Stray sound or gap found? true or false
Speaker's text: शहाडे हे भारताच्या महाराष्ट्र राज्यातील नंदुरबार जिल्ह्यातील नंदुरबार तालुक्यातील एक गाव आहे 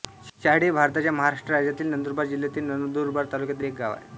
false